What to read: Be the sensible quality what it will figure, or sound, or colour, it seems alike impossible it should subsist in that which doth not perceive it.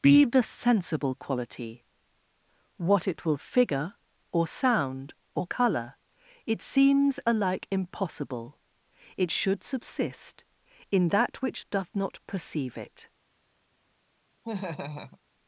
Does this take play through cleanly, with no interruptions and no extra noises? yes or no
no